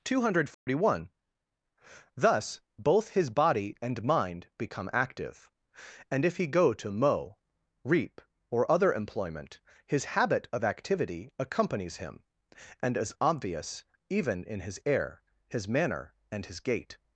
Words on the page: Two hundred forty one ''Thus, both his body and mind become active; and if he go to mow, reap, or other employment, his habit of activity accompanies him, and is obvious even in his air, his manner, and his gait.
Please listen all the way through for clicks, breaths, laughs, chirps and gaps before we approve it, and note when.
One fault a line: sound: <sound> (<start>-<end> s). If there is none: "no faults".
sound: dropout (0.5-0.7 s)